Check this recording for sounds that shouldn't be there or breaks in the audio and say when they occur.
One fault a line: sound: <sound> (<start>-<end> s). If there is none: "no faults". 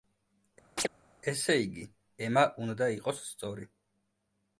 sound: chirp (0.8-0.9 s)